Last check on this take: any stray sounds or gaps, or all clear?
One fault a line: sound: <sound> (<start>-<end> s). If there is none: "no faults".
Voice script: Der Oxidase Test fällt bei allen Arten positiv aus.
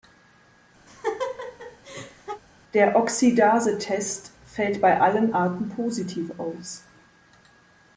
sound: laugh (0.9-2.4 s)